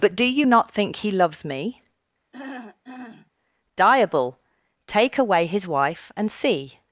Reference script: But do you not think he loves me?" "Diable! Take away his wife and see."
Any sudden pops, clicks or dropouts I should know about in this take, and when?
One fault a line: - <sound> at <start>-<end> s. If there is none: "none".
- throat clearing at 2.3-3.3 s